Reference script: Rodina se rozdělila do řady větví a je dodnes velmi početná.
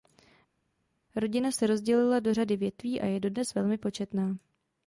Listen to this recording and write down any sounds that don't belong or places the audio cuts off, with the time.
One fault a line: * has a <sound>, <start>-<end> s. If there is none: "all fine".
all fine